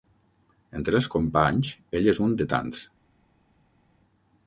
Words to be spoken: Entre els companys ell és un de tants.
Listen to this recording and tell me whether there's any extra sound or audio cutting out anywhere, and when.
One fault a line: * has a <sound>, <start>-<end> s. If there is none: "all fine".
all fine